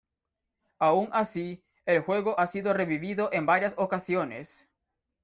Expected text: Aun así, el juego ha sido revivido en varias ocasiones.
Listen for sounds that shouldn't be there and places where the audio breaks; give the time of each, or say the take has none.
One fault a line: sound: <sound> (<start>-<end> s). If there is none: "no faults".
no faults